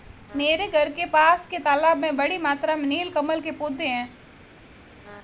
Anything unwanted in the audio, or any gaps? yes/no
no